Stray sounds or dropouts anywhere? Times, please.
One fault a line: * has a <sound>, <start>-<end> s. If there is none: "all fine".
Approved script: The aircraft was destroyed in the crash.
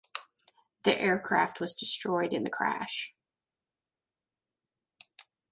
all fine